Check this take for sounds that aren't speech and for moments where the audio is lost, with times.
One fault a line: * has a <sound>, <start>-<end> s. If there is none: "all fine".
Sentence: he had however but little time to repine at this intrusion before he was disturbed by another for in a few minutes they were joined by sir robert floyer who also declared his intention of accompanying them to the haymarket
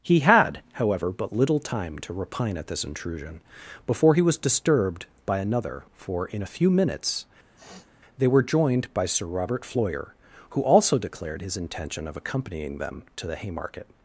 * has a sniff, 7.6-7.9 s